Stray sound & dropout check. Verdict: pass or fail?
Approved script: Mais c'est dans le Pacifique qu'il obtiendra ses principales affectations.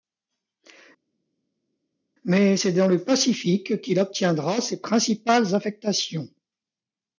pass